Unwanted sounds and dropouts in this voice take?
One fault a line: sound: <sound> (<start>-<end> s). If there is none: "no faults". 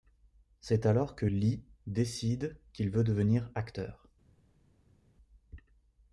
no faults